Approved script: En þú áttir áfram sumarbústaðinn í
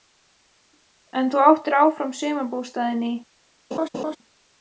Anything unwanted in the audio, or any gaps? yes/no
yes